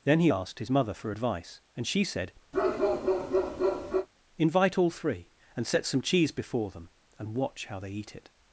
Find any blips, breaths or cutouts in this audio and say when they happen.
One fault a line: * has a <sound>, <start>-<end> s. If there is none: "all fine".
* has a bark, 2.5-4.1 s